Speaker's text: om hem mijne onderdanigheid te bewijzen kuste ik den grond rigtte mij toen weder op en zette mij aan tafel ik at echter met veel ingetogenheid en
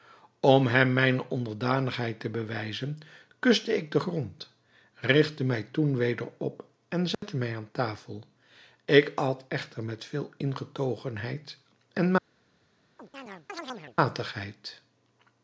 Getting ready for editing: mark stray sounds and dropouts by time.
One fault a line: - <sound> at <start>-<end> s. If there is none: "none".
- dropout at 7.1-7.2 s
- chirp at 13.0-14.0 s